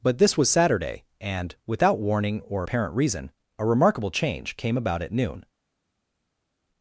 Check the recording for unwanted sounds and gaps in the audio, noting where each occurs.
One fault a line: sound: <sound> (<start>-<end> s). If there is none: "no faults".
no faults